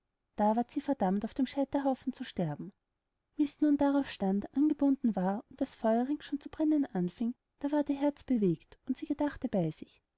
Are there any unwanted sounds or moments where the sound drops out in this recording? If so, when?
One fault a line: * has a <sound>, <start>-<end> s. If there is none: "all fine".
all fine